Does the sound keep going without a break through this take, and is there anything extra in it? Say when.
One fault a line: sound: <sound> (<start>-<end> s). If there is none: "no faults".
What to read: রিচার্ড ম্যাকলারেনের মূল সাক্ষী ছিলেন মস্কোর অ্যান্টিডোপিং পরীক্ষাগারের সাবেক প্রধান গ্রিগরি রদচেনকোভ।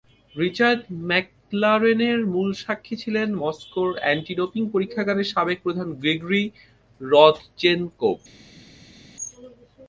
no faults